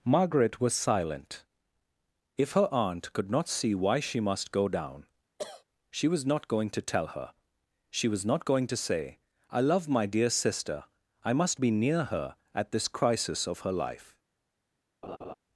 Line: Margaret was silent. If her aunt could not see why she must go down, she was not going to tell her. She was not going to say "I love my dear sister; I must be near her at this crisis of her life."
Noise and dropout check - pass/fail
fail